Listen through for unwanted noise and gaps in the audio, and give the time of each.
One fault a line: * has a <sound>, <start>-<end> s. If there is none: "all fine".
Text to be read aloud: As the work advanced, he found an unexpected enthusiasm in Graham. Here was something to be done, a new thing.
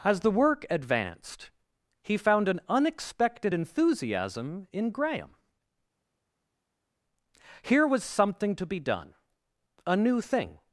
all fine